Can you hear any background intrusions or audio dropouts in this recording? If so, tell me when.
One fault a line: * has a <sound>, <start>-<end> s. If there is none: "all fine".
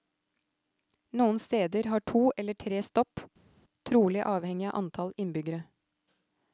all fine